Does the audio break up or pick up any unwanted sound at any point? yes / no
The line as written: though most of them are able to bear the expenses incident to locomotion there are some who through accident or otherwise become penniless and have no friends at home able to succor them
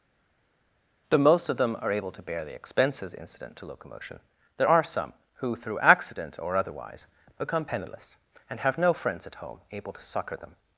no